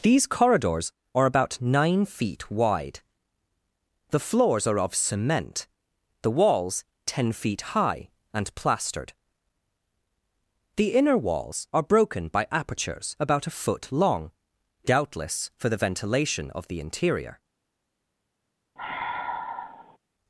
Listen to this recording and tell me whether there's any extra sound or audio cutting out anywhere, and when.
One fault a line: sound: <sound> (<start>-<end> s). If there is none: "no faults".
sound: sigh (18.8-20.0 s)